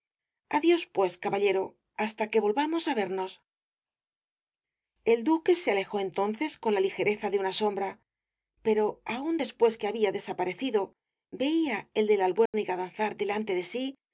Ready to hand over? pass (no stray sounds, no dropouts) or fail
fail